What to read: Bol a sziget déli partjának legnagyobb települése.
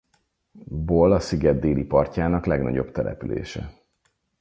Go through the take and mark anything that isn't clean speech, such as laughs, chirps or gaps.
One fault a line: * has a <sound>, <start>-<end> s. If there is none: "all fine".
all fine